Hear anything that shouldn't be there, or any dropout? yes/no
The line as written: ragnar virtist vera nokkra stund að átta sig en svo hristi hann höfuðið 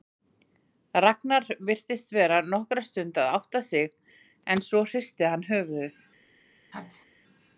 yes